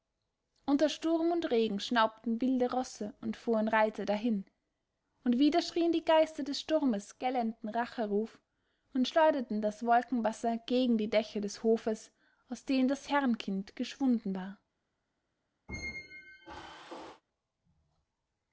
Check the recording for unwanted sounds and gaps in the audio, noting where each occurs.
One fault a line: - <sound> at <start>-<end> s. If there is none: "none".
- squeak at 15.7-17.2 s